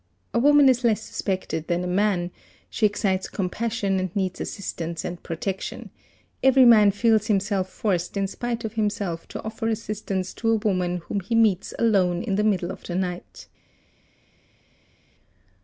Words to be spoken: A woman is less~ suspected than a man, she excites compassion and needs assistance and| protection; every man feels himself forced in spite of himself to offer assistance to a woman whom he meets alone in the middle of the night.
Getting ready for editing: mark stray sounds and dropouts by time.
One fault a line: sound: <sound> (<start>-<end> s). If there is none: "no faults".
no faults